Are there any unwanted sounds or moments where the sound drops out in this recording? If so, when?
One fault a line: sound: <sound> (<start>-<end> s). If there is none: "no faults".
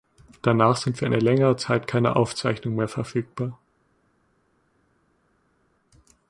no faults